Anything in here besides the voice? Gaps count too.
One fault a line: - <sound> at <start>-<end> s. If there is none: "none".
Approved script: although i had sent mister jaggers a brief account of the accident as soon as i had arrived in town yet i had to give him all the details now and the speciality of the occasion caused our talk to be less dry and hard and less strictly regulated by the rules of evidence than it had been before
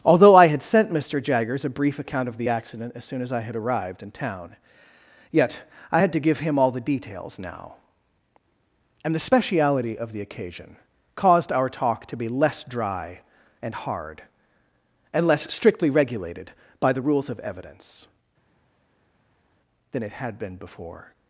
none